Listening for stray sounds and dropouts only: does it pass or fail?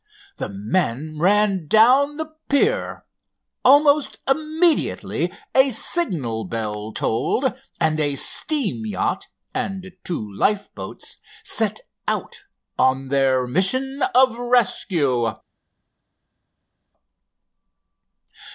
pass